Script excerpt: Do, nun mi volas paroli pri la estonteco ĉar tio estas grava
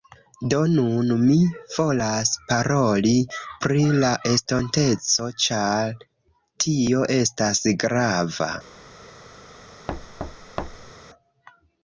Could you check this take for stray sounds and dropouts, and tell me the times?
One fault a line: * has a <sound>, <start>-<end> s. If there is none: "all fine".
* has a thud, 9.9-10.9 s